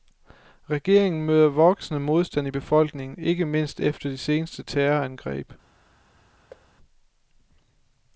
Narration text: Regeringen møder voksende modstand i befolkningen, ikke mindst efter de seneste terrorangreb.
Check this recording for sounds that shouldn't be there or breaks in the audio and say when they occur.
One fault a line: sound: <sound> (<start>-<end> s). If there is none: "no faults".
sound: thud (6.5-6.7 s)